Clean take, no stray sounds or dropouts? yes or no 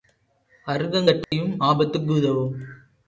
no